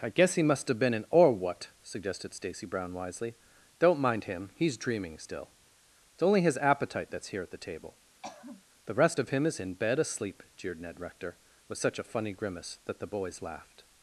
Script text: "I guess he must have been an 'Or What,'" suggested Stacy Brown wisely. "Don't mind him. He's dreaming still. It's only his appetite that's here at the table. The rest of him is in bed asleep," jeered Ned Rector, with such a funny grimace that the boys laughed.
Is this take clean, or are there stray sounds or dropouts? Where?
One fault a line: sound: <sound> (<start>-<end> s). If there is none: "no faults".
sound: throat clearing (8.2-8.6 s)